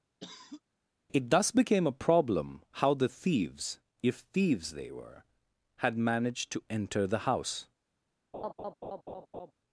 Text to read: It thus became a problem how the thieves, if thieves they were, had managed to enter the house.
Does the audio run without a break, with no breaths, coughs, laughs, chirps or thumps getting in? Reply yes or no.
no